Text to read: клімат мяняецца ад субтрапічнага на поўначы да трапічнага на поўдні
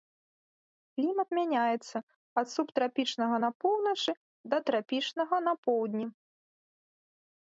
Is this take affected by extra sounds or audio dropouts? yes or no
no